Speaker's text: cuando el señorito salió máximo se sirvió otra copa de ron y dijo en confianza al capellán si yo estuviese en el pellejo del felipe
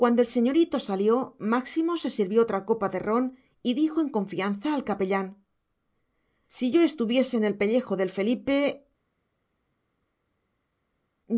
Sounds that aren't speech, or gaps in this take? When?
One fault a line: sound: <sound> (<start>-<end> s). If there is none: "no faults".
no faults